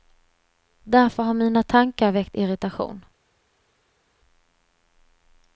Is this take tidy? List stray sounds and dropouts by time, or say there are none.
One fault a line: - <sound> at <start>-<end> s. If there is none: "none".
none